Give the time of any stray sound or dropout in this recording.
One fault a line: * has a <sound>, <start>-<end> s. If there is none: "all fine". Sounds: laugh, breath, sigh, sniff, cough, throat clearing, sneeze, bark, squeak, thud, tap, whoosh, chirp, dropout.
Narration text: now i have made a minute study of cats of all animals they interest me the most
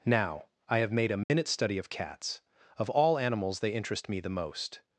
* has a dropout, 1.2-1.3 s